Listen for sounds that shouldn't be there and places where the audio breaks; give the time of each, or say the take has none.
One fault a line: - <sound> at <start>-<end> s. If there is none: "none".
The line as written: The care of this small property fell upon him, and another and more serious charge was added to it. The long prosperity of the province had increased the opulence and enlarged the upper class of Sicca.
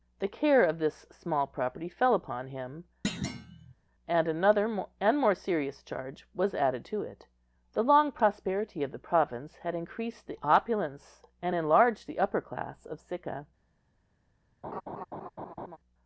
- thud at 3.0-3.7 s
- laugh at 14.6-15.8 s